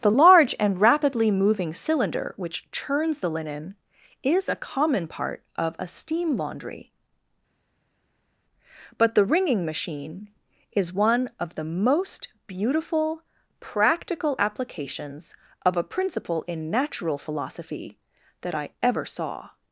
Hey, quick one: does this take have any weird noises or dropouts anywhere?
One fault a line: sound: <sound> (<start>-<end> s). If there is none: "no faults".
no faults